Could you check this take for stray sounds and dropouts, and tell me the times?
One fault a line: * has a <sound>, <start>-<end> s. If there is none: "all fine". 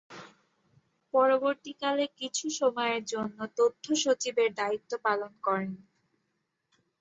all fine